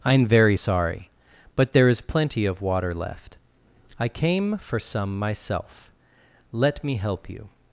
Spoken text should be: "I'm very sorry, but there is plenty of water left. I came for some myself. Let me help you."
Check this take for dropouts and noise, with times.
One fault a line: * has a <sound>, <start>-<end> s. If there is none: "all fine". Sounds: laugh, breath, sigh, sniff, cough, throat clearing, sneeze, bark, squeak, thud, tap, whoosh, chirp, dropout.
all fine